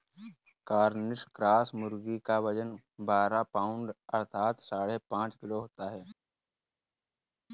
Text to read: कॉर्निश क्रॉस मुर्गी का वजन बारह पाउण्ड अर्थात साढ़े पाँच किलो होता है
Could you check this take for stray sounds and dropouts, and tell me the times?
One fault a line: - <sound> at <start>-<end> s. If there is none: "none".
none